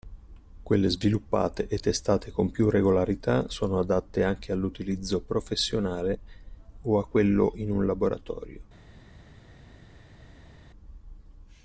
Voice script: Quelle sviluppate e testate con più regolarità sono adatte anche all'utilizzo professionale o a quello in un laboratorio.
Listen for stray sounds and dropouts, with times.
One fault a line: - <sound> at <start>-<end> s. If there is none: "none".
none